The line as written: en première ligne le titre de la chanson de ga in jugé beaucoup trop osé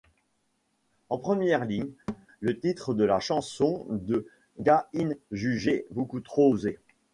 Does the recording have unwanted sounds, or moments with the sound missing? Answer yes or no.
yes